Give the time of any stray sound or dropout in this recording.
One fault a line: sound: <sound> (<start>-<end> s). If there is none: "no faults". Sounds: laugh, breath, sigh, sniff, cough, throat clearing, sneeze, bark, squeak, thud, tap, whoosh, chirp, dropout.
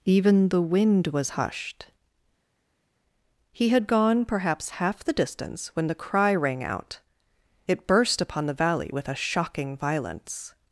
no faults